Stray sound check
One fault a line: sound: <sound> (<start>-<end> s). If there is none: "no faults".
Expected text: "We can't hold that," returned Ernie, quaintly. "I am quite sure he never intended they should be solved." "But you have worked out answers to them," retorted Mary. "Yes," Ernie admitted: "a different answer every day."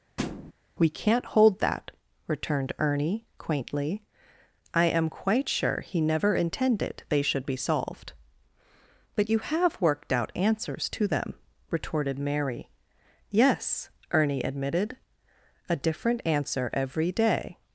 sound: thud (0.2-0.5 s)